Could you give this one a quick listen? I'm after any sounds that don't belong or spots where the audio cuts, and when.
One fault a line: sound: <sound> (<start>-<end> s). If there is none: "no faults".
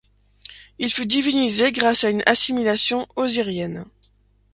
no faults